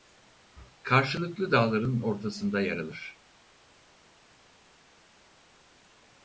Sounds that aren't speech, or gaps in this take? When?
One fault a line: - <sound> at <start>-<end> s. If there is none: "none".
none